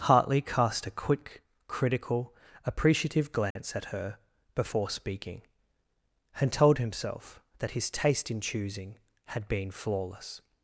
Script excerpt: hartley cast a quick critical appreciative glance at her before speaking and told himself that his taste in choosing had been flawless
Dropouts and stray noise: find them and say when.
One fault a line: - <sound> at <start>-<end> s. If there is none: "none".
- dropout at 3.5-3.6 s